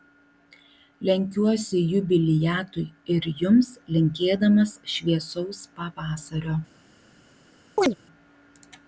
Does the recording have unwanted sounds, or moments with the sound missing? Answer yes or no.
yes